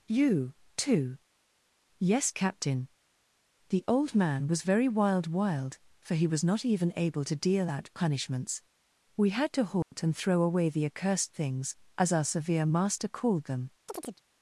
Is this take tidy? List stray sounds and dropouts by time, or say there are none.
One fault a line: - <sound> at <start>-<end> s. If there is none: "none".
- dropout at 9.8-9.9 s
- chirp at 13.9-14.2 s